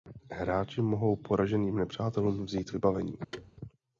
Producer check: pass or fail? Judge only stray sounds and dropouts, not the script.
fail